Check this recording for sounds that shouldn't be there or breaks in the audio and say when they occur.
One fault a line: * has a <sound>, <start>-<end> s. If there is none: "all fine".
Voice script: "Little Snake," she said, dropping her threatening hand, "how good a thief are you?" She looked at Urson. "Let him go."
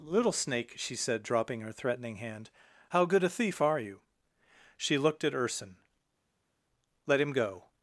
all fine